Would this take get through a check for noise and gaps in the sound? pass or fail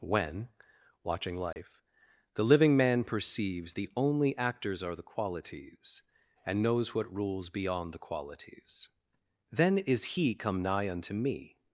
fail